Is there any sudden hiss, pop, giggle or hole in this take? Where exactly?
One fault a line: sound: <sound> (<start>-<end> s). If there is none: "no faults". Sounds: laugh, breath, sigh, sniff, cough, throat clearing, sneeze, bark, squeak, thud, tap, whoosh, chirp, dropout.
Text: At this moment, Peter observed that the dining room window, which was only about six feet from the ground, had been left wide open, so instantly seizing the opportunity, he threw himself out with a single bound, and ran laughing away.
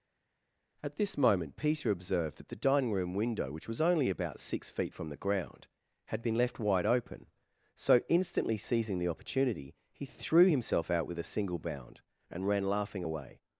no faults